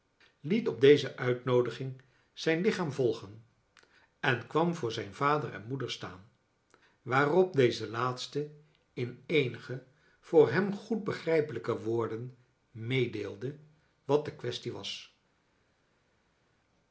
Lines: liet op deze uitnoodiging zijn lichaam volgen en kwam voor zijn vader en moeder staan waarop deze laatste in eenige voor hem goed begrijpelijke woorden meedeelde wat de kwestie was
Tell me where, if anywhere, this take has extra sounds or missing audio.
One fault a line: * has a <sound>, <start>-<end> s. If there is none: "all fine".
all fine